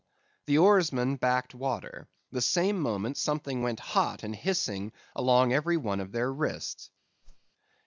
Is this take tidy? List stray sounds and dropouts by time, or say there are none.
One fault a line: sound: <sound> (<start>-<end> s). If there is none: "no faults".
sound: whoosh (7.2-7.5 s)